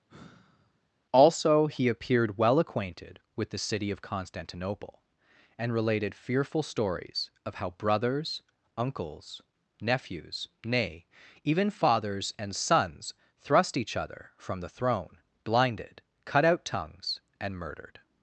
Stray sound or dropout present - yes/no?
yes